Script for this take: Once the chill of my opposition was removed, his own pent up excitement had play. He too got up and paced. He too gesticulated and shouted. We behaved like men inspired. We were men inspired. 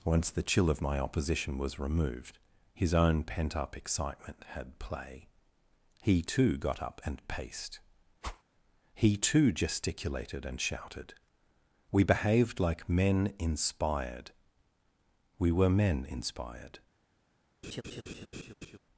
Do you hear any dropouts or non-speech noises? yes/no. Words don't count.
yes